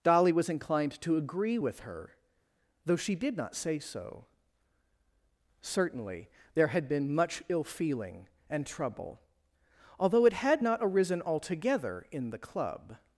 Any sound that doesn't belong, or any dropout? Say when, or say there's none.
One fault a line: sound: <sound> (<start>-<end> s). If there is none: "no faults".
no faults